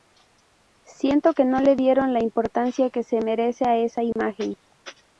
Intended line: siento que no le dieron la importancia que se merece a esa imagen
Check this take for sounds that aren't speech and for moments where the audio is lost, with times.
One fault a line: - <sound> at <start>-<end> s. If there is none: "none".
- dropout at 4.1-4.2 s